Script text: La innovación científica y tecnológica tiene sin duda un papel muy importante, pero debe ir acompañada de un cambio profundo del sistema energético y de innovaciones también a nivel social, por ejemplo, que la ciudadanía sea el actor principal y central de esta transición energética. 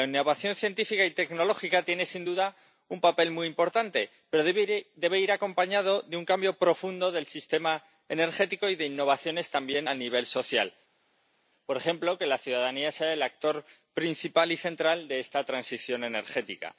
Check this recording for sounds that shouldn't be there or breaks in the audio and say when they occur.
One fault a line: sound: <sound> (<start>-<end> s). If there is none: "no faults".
no faults